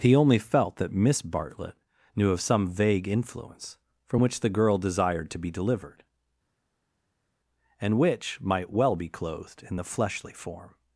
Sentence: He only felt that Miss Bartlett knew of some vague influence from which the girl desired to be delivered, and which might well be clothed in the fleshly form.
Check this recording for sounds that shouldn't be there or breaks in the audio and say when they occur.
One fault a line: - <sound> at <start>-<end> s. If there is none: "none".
none